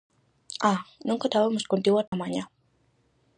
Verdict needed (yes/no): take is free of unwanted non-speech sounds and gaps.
no